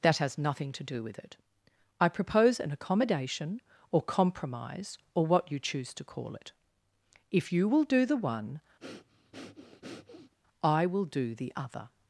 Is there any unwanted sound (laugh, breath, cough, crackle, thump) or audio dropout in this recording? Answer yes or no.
yes